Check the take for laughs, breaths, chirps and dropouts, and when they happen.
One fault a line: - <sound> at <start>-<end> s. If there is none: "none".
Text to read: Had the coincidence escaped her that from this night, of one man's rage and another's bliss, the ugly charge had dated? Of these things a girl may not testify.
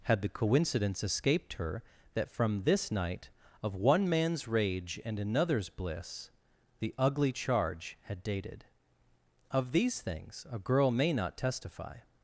none